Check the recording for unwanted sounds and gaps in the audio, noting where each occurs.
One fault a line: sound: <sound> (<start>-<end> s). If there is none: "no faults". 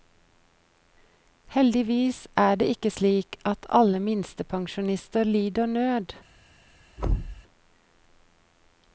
sound: thud (7.0-7.4 s)